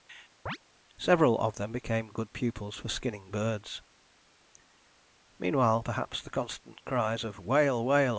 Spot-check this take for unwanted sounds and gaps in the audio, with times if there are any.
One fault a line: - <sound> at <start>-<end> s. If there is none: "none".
- chirp at 0.5-0.6 s